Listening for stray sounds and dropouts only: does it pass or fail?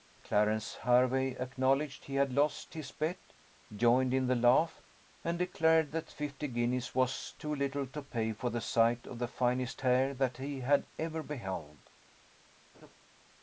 fail